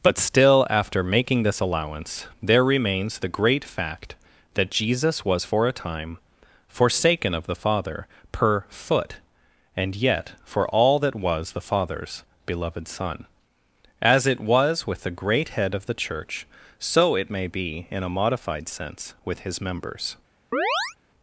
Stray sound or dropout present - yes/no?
yes